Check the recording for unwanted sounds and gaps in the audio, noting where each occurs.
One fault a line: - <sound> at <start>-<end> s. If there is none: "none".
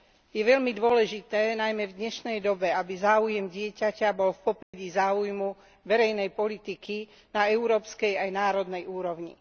- dropout at 4.6-4.7 s